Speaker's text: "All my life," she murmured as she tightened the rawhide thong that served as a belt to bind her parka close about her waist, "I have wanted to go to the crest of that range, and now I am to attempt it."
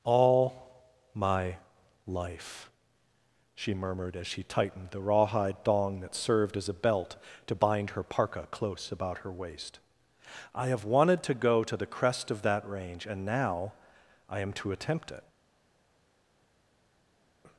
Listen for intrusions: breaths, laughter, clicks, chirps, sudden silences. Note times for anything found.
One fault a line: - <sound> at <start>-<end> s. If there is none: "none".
none